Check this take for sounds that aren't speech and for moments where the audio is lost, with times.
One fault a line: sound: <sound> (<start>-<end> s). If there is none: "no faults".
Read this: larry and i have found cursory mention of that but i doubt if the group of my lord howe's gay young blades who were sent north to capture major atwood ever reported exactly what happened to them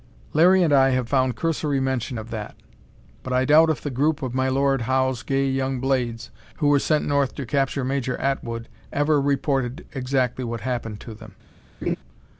sound: laugh (11.8-12.0 s)